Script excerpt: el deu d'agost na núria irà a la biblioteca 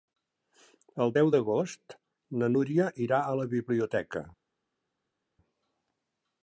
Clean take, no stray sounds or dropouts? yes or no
yes